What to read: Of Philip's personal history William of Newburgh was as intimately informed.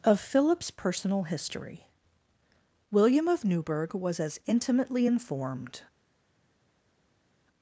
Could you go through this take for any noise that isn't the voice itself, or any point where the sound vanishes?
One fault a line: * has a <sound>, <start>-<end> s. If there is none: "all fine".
all fine